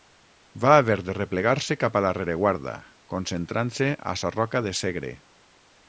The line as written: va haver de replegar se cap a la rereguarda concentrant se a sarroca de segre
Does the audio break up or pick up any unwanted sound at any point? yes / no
no